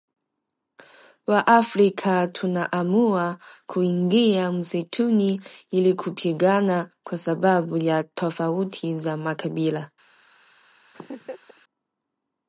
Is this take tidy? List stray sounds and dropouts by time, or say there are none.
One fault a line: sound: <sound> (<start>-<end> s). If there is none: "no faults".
sound: laugh (10.9-11.6 s)